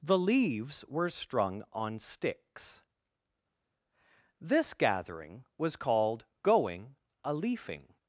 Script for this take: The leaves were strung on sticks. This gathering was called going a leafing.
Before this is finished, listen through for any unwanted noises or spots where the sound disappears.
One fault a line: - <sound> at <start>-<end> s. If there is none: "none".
none